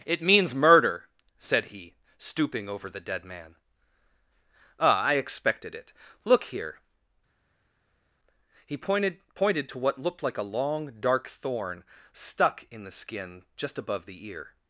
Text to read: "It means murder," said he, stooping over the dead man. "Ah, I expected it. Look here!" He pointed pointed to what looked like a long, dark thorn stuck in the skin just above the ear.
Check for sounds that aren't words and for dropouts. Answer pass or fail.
pass